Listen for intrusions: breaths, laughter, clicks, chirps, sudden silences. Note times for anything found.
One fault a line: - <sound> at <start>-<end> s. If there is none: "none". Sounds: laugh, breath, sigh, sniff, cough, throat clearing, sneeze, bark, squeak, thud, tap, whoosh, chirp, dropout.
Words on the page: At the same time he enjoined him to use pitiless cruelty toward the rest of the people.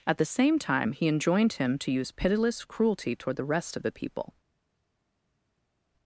none